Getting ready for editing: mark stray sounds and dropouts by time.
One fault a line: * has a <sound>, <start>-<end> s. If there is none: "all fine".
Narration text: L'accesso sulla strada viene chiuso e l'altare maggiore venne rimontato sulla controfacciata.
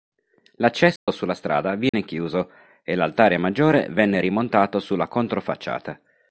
* has a dropout, 1.0-1.1 s
* has a dropout, 1.9-1.9 s